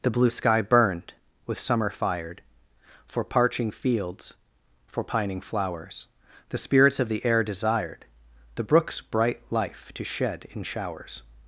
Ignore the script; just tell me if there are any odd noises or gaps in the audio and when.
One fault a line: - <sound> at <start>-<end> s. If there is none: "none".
none